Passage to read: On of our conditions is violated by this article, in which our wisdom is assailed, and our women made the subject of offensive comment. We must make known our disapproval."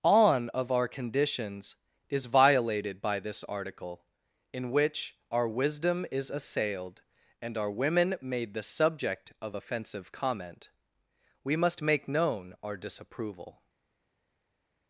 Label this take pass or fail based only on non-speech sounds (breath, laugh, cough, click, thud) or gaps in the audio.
pass